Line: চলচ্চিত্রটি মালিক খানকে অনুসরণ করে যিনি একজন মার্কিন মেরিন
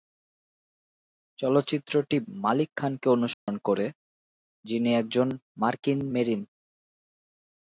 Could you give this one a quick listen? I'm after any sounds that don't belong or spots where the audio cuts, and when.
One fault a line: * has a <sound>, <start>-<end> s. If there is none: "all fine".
* has a dropout, 3.3-3.5 s